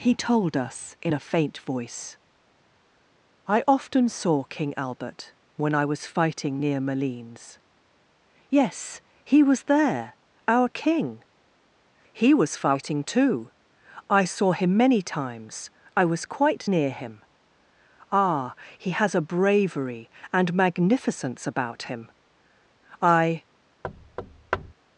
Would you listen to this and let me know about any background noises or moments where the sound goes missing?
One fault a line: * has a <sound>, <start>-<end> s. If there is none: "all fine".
* has a thud, 23.8-24.7 s